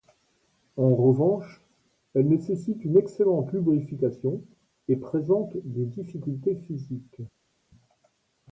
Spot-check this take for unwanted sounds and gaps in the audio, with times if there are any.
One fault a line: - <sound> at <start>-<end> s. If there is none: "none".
none